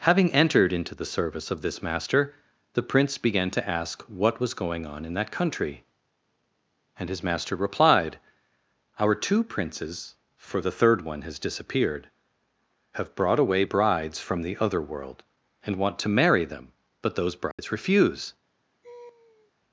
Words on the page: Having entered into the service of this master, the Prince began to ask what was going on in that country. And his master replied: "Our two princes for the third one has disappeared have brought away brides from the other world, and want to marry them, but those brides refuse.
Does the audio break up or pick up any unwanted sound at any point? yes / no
yes